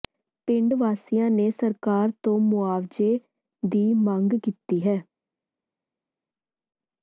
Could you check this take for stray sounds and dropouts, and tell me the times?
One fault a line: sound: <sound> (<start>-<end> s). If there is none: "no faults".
no faults